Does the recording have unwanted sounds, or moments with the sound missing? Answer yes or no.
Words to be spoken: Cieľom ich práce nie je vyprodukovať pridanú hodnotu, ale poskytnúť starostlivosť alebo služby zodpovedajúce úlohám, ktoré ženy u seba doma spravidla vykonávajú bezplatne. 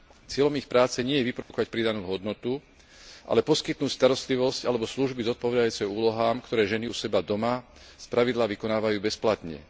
yes